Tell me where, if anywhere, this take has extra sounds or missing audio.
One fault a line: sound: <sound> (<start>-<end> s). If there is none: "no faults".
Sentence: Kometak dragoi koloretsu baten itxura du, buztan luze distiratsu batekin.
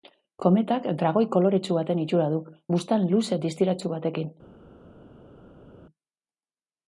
no faults